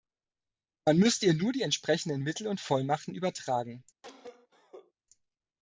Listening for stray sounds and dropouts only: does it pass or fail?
fail